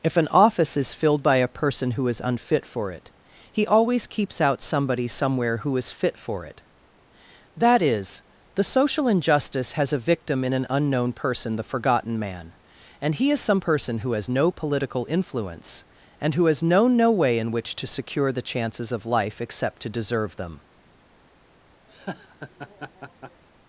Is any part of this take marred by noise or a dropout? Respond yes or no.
yes